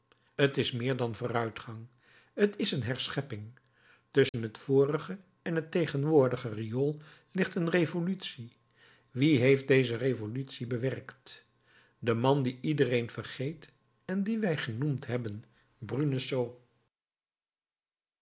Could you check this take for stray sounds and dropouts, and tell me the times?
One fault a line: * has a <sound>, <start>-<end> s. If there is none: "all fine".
* has a dropout, 4.3-4.3 s